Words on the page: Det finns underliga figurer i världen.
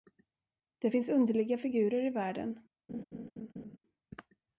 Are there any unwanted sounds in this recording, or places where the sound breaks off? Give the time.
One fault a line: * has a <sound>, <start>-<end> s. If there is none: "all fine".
* has a laugh, 2.9-3.8 s